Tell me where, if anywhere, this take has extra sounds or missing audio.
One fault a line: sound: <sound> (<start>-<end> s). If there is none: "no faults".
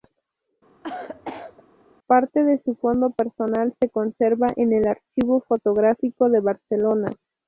sound: cough (0.8-1.6 s)